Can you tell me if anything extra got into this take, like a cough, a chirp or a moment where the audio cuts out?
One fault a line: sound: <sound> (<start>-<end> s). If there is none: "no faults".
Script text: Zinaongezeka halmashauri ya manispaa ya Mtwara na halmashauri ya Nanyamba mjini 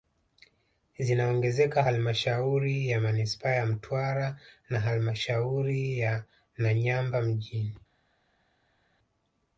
no faults